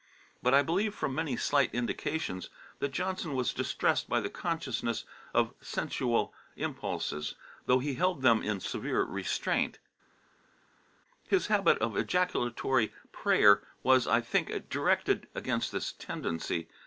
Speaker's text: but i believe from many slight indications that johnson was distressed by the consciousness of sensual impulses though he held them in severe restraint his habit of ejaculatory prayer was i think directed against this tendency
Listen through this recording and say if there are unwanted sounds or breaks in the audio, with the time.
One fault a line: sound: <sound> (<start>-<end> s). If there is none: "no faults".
no faults